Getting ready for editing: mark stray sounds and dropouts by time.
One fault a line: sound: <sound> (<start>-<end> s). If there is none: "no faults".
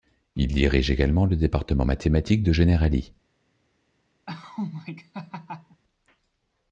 sound: laugh (4.3-5.8 s)